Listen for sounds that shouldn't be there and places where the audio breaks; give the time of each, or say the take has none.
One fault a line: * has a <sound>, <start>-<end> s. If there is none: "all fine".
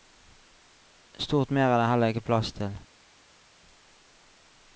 all fine